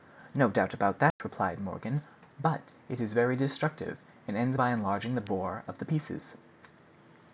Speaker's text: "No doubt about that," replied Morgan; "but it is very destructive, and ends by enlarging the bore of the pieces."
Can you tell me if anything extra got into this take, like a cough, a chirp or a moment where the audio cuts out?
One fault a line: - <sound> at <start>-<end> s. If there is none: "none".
- dropout at 1.1-1.2 s